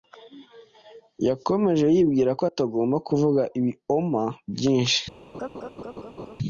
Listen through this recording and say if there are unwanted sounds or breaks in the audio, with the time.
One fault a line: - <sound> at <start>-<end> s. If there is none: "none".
- laugh at 5.3-6.4 s